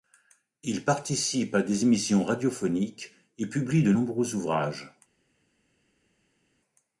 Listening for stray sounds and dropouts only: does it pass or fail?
pass